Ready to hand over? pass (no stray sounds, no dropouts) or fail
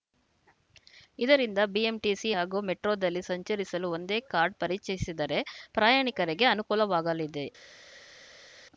pass